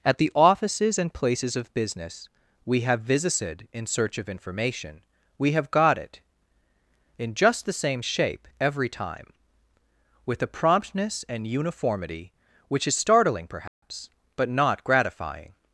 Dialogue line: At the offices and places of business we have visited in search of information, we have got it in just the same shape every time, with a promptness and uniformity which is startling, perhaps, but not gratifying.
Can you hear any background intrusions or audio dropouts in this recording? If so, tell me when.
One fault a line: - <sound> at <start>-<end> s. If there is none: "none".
- dropout at 13.7-13.8 s